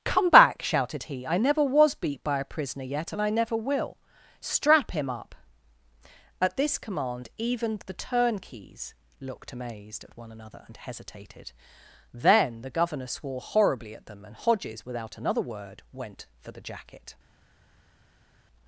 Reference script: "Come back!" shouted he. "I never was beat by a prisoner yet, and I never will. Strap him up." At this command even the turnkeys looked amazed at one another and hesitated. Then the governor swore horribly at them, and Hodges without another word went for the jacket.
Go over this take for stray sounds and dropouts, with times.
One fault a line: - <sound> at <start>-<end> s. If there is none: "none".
none